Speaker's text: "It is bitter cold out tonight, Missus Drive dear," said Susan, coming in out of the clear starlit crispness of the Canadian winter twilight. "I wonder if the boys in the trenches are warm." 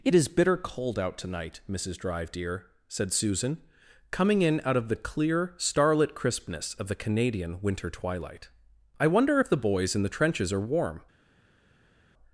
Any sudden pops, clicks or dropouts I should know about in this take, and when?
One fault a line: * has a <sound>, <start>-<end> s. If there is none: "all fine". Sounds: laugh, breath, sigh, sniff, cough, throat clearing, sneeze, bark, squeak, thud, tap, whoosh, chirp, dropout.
all fine